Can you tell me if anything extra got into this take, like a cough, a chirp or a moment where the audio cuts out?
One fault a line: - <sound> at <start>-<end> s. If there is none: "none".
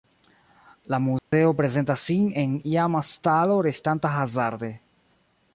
- dropout at 1.2-1.3 s